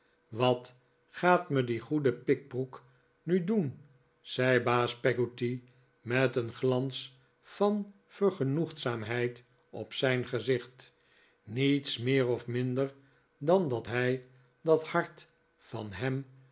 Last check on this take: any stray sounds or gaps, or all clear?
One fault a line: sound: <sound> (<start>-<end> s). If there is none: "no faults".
no faults